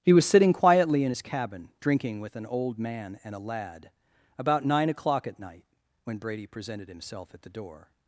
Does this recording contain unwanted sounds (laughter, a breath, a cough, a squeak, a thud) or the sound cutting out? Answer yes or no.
no